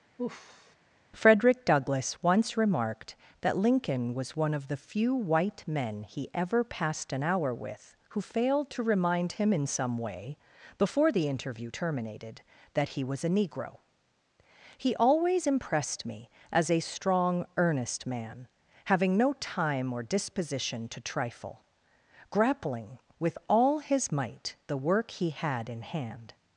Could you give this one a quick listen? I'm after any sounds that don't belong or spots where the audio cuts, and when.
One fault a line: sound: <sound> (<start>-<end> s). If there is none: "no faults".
sound: sigh (0.2-0.8 s)